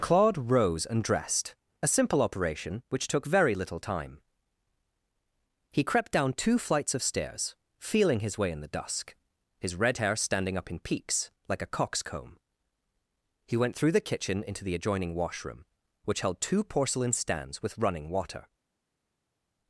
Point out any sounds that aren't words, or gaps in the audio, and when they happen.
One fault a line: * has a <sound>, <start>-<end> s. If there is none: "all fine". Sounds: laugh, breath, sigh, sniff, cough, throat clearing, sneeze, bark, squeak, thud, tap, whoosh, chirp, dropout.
all fine